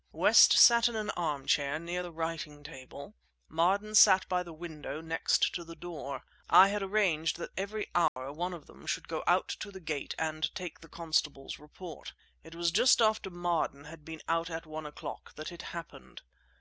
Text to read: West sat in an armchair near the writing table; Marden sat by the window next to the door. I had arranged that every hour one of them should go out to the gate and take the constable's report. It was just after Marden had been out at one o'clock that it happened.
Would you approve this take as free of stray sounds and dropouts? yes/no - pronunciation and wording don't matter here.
no